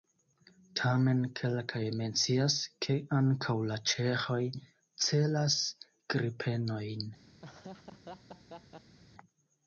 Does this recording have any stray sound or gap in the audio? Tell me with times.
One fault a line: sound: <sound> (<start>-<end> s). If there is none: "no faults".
sound: laugh (7.4-9.0 s)